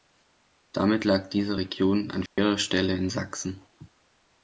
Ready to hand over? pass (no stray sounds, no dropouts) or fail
fail